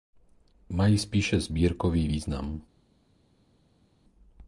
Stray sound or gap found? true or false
false